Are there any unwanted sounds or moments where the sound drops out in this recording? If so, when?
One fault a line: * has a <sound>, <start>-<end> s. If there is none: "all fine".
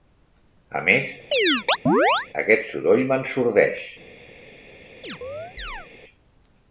* has a chirp, 1.3-2.3 s
* has a chirp, 5.0-5.9 s